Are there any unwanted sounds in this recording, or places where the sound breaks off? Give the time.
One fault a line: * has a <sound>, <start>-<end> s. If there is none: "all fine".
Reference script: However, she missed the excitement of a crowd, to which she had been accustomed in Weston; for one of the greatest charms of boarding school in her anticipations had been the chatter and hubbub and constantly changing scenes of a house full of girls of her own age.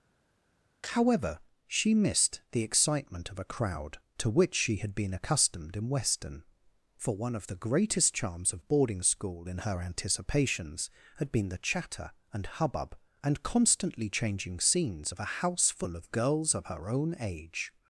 all fine